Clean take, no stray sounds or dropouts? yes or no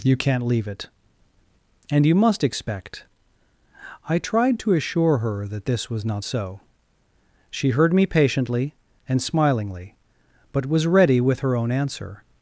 yes